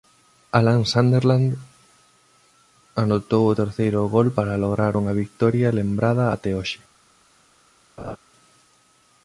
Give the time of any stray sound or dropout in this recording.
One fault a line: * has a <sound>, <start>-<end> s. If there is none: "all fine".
* has a laugh, 8.0-8.2 s